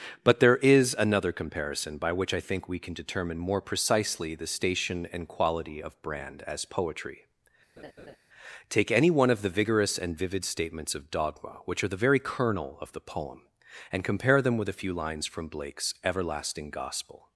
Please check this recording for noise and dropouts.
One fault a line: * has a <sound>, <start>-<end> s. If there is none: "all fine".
* has a laugh, 7.8-8.2 s